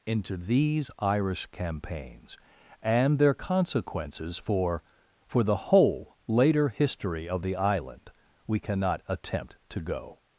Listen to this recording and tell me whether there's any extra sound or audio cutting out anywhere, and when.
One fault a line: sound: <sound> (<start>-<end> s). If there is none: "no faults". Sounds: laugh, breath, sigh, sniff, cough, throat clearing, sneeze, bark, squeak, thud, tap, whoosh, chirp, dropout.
no faults